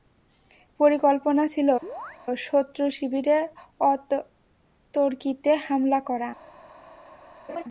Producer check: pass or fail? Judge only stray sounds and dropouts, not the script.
fail